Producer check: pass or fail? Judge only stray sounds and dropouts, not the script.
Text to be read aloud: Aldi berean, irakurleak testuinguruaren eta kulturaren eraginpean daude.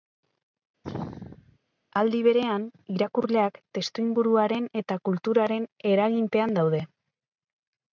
fail